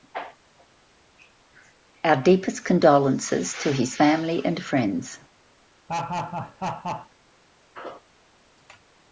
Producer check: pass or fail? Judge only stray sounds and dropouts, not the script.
fail